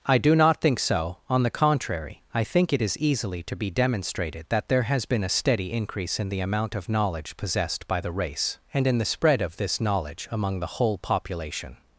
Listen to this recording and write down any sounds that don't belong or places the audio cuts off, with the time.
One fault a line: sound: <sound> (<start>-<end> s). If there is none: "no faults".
no faults